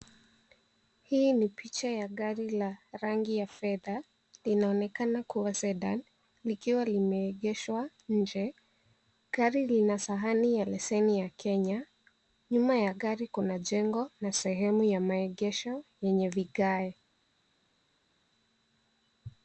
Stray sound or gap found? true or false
false